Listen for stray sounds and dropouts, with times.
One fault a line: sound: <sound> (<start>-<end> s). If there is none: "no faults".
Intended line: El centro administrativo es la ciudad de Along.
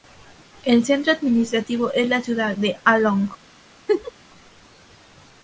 sound: laugh (3.9-4.1 s)